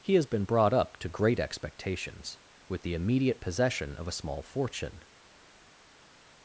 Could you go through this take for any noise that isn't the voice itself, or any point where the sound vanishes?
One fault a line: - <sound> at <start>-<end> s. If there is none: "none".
none